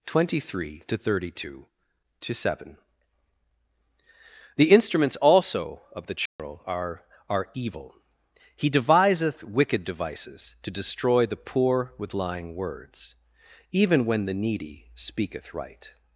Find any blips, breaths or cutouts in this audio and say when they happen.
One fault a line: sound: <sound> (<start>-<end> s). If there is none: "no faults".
sound: dropout (6.3-6.4 s)